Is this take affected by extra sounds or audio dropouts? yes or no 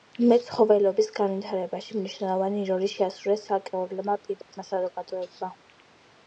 yes